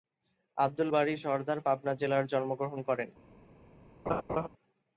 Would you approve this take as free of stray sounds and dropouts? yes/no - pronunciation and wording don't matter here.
no